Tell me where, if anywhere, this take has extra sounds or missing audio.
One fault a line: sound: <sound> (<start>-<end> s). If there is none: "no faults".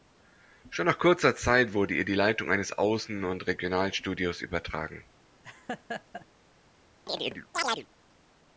sound: laugh (5.4-6.3 s)
sound: chirp (7.1-7.9 s)